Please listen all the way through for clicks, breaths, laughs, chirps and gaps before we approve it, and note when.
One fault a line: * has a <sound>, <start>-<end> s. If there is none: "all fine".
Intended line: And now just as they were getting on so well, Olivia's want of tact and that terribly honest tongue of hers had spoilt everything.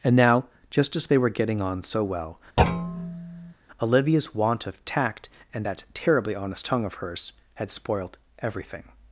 * has a thud, 2.6-3.5 s